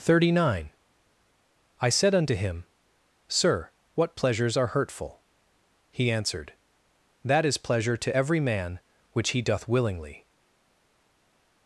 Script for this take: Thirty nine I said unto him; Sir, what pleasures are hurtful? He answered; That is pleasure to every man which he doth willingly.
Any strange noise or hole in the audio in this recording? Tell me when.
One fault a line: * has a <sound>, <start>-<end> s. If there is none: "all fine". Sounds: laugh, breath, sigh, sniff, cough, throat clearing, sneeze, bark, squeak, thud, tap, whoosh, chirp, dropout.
all fine